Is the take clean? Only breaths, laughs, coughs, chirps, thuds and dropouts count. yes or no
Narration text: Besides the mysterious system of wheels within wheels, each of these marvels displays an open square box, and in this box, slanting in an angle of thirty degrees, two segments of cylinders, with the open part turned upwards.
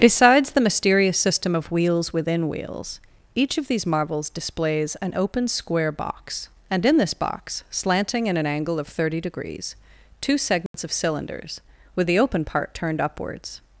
no